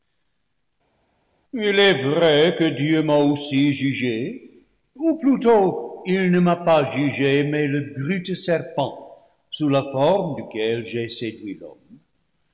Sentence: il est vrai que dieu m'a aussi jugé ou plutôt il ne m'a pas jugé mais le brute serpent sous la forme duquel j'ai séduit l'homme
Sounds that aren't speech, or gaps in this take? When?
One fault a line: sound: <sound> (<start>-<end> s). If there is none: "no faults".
no faults